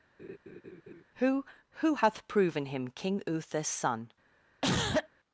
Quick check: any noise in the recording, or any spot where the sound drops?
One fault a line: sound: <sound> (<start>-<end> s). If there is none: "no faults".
sound: laugh (0.2-1.0 s)
sound: cough (4.6-5.1 s)